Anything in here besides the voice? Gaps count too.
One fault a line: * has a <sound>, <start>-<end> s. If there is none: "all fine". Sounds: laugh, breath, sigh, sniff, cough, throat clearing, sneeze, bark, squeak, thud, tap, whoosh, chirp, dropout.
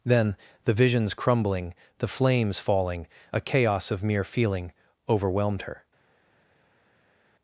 all fine